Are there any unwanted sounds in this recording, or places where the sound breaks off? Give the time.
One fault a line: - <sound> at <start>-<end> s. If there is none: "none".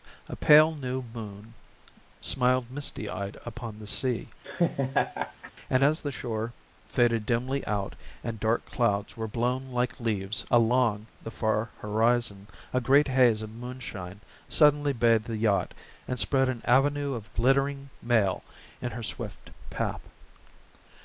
- laugh at 4.4-5.5 s